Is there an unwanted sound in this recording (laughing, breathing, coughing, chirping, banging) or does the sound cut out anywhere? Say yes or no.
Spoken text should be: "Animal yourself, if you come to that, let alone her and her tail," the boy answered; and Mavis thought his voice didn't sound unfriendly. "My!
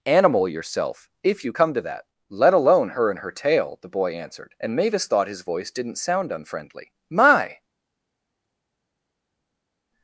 no